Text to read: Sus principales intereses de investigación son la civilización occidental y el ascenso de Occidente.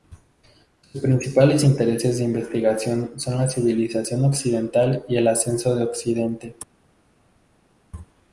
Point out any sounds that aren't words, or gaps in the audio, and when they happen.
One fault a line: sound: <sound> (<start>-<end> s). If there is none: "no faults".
no faults